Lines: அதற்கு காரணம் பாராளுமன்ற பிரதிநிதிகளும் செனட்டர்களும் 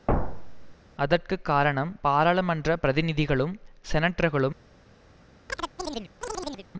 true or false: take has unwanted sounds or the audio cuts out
true